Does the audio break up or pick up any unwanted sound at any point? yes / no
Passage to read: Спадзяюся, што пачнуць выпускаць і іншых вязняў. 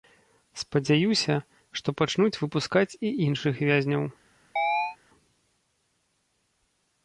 yes